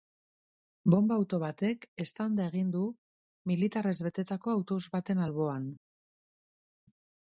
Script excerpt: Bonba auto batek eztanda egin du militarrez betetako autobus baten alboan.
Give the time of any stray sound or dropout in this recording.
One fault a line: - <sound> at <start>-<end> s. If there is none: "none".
none